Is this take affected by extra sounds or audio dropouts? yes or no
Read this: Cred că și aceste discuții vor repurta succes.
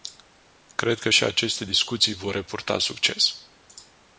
no